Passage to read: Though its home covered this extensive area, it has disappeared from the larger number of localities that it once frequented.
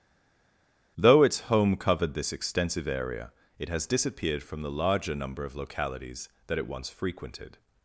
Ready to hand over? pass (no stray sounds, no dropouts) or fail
pass